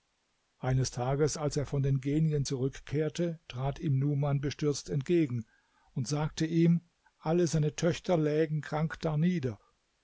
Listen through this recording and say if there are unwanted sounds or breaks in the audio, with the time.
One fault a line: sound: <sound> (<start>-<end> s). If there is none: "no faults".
no faults